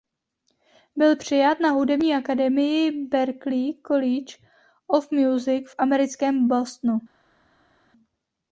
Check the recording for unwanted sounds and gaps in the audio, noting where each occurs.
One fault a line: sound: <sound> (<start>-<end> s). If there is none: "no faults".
no faults